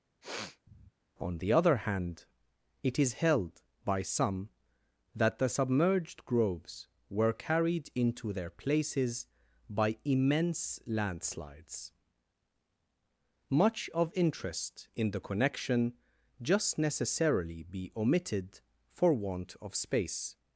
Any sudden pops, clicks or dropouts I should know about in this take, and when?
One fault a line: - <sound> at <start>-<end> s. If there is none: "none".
- sniff at 0.2-0.9 s